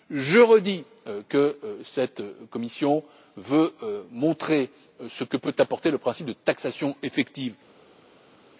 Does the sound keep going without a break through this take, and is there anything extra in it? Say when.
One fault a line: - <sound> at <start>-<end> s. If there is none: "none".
none